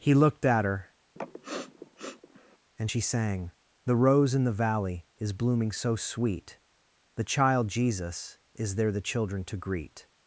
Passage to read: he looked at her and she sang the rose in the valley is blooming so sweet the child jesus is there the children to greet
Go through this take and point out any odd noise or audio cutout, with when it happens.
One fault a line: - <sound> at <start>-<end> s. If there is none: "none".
- sniff at 1.2-2.6 s